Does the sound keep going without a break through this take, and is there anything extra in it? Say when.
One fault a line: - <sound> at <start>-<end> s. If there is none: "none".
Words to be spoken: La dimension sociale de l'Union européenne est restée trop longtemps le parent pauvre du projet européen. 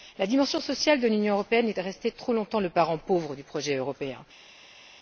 none